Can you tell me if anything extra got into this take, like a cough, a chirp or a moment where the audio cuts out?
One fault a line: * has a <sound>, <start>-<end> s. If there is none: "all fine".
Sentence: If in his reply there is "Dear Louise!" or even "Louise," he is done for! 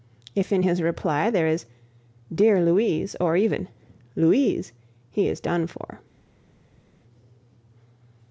all fine